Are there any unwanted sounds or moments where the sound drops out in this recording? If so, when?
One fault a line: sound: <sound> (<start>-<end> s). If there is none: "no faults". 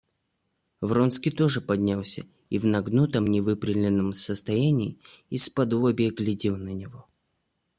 no faults